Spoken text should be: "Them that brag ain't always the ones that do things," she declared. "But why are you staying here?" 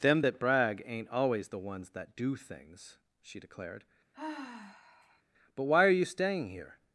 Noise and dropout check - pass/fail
fail